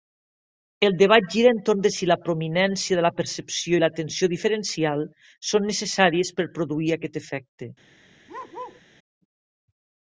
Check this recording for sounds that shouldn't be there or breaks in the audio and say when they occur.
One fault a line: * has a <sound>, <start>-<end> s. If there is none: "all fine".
* has a bark, 8.3-8.8 s